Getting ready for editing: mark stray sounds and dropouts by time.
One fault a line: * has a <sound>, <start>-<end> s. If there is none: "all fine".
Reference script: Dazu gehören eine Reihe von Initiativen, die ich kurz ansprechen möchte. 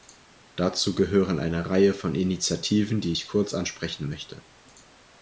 all fine